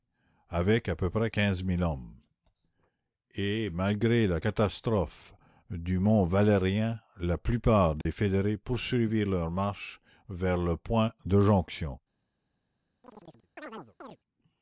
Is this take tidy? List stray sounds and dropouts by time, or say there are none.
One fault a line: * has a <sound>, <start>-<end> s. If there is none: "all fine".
* has a dropout, 8.0-8.1 s
* has a chirp, 13.0-14.2 s